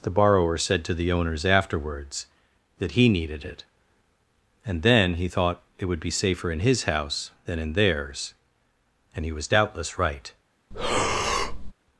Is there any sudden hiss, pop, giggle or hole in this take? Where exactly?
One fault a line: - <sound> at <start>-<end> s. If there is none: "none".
- breath at 10.7-11.7 s